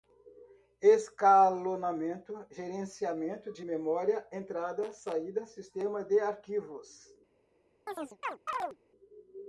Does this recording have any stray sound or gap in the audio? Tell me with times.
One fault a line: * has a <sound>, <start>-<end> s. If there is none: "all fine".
* has a chirp, 7.9-8.8 s